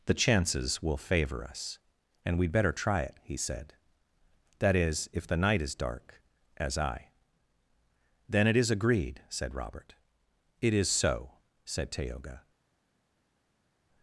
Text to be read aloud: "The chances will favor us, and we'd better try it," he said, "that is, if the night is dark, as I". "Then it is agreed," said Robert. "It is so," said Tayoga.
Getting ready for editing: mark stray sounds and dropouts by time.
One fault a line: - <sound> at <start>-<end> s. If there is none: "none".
none